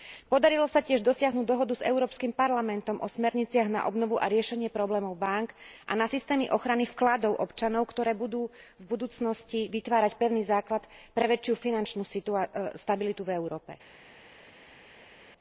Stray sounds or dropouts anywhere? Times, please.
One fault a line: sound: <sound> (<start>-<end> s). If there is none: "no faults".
no faults